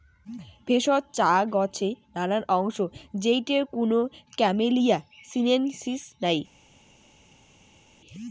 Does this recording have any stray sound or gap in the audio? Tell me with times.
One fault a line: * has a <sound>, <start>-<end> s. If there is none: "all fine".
all fine